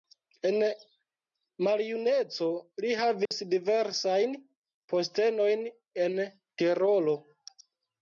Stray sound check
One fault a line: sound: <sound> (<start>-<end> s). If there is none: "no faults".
sound: dropout (3.3-3.3 s)